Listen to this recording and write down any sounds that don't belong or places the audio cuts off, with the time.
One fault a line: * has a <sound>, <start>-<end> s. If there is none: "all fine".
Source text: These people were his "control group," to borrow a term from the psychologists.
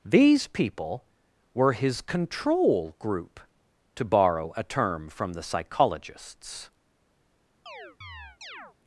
* has a chirp, 7.7-8.8 s